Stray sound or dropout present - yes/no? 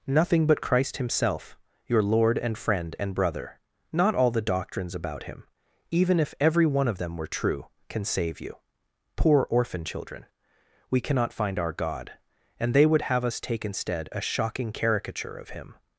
no